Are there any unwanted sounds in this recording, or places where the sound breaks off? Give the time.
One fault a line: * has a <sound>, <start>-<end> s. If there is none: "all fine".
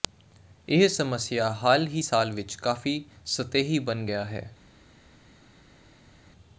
all fine